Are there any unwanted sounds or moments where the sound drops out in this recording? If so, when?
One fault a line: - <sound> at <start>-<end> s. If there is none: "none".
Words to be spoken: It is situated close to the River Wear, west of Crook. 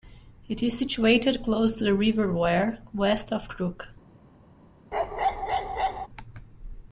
- bark at 4.9-6.1 s